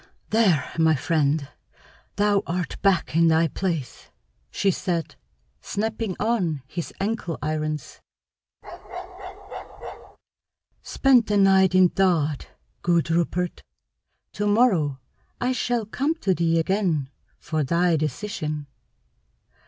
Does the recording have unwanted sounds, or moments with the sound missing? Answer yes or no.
yes